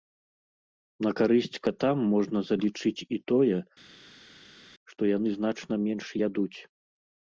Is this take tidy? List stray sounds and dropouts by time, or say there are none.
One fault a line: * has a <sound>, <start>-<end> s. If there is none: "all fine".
all fine